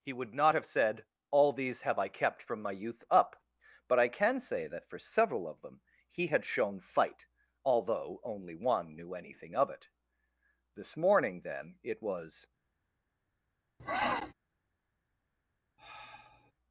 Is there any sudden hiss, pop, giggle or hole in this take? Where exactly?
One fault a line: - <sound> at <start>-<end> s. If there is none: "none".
- sniff at 13.8-14.3 s
- sigh at 15.8-16.5 s